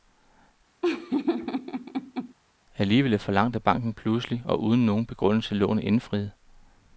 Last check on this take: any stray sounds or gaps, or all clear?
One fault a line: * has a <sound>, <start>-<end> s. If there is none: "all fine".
* has a laugh, 0.8-2.3 s